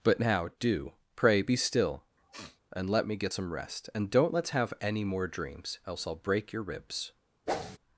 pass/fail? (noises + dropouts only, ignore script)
fail